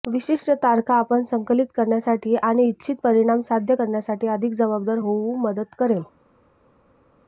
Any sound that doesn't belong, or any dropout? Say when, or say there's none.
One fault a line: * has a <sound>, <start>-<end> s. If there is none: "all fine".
all fine